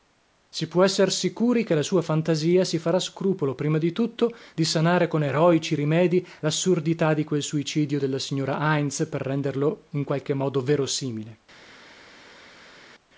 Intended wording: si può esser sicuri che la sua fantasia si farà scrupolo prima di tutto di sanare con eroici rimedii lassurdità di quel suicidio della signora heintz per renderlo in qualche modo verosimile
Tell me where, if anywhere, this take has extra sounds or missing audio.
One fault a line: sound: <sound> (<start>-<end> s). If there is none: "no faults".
no faults